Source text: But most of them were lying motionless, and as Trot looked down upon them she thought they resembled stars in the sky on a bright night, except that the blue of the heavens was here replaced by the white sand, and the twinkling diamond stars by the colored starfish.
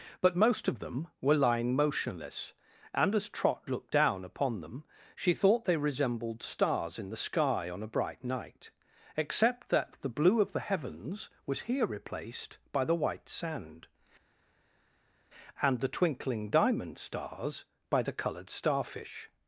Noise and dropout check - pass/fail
pass